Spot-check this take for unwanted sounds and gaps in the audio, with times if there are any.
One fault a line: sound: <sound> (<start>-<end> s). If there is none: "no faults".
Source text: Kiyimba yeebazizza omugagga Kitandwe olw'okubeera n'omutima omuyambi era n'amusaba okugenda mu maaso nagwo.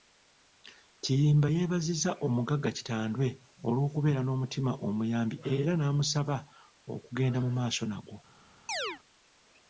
sound: chirp (8.7-9.0 s)